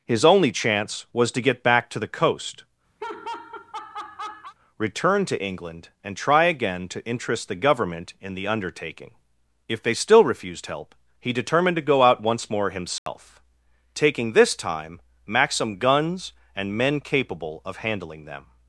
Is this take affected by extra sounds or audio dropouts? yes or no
yes